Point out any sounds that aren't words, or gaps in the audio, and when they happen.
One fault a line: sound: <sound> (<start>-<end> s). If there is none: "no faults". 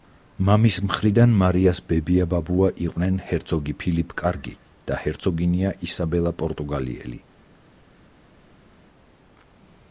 no faults